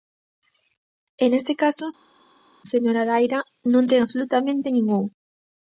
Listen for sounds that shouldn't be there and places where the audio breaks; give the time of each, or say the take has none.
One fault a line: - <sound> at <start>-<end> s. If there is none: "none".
none